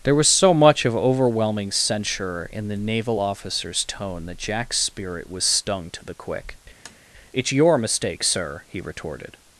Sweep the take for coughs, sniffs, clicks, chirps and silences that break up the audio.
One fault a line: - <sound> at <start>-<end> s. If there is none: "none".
- tap at 6.8-7.0 s